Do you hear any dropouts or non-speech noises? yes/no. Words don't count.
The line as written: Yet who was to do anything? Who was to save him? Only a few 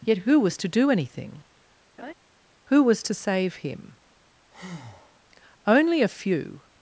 yes